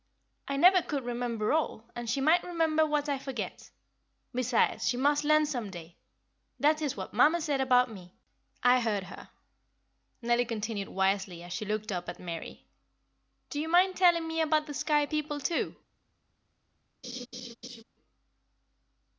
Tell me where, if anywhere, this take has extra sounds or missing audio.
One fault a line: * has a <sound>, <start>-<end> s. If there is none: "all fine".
* has a laugh, 17.0-17.8 s